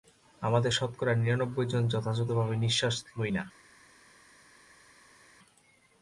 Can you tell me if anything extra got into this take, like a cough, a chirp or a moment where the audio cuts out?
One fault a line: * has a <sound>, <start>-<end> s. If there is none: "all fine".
all fine